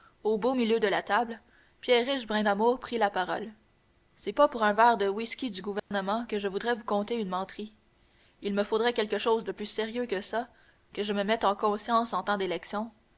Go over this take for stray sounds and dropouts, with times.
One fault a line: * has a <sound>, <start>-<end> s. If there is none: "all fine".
* has a dropout, 5.8-5.9 s